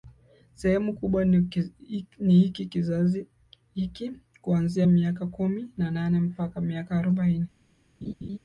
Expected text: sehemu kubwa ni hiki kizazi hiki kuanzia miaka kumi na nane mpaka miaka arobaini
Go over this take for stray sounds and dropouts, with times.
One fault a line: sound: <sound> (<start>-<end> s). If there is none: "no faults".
sound: laugh (8.0-8.4 s)